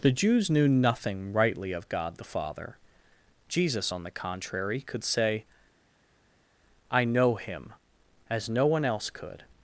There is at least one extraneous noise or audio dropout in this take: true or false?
false